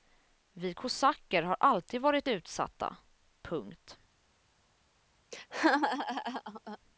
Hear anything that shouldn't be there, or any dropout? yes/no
yes